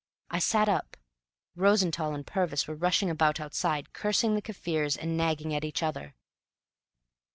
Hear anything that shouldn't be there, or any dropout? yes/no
no